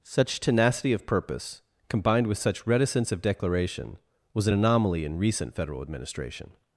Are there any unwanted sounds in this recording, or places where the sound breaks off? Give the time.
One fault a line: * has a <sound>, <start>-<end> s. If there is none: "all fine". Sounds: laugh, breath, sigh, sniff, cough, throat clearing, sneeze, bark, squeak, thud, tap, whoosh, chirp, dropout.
all fine